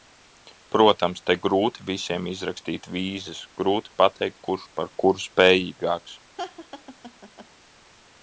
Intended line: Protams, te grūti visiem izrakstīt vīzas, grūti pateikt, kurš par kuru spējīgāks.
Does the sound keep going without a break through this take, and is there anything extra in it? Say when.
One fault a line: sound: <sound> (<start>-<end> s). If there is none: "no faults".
sound: laugh (6.4-7.5 s)